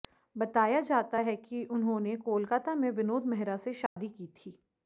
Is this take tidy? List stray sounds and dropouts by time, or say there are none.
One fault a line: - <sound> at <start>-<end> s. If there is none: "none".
- dropout at 3.9-4.0 s